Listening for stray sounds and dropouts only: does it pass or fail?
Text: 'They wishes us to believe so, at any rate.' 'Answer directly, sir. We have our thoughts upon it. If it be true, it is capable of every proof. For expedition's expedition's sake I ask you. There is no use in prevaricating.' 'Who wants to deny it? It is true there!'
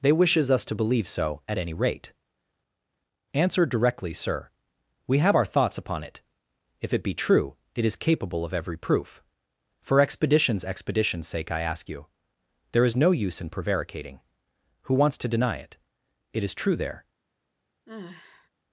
fail